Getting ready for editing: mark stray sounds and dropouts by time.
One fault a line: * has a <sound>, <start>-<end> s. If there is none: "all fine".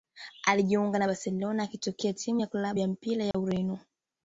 * has a dropout, 3.3-3.3 s